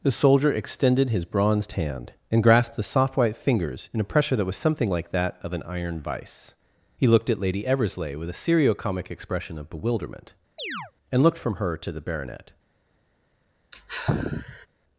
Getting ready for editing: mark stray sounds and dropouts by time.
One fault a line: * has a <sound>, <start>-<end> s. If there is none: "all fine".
* has a chirp, 10.6-10.9 s
* has a sigh, 13.7-14.7 s